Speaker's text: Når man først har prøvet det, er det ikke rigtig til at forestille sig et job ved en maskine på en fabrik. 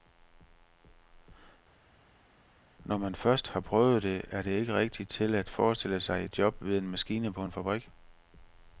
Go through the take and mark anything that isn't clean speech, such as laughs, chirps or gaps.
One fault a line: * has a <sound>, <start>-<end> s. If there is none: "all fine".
all fine